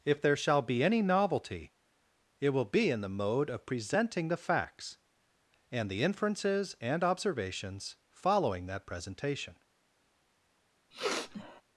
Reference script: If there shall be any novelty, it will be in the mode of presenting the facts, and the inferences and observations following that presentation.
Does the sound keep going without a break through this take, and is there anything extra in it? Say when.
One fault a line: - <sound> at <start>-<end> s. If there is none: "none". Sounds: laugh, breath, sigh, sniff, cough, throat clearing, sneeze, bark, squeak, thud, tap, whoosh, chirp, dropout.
- sniff at 10.9-11.6 s